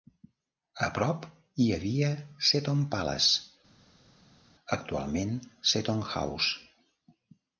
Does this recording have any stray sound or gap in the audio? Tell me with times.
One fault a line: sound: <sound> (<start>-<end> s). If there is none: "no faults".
no faults